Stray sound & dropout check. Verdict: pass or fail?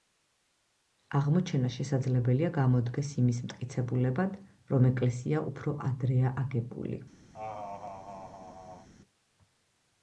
fail